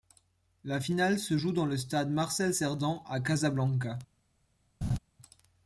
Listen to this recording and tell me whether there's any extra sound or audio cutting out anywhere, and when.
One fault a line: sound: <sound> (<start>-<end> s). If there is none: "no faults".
sound: laugh (4.8-5.0 s)